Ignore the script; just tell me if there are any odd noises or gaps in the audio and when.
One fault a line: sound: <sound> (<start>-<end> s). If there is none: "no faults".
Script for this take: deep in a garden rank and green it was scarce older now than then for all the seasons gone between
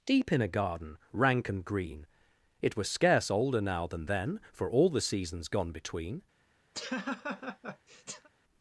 sound: laugh (6.7-8.3 s)